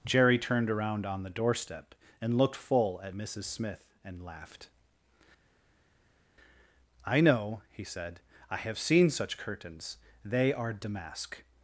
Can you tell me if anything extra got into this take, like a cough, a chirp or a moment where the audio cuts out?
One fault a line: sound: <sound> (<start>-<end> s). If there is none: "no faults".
no faults